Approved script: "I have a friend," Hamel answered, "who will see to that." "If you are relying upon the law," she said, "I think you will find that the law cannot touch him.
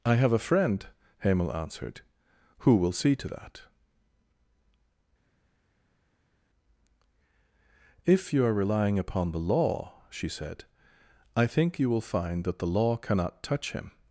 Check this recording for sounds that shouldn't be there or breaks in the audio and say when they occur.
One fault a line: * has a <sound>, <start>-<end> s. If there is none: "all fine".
all fine